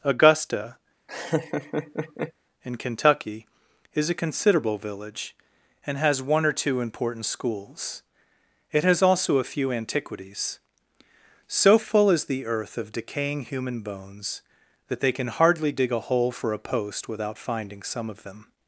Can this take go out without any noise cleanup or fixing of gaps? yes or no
no